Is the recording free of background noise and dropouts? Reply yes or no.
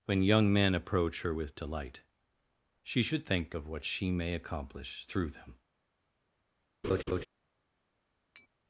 no